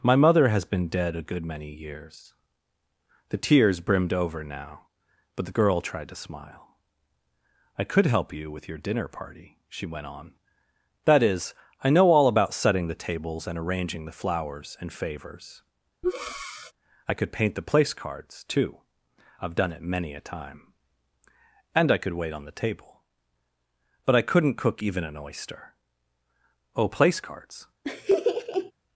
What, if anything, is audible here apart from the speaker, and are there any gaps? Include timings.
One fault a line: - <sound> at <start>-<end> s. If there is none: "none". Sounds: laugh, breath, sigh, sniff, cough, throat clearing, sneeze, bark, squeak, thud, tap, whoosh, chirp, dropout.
- breath at 16.0-16.7 s
- laugh at 27.8-28.7 s